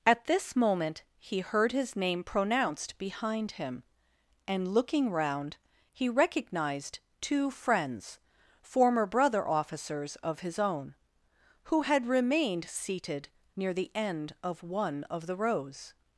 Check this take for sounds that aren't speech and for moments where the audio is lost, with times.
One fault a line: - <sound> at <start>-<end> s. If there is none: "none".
none